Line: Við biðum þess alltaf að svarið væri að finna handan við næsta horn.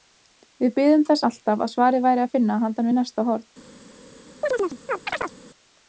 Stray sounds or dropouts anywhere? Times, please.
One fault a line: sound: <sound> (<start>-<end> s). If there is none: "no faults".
sound: chirp (4.4-5.3 s)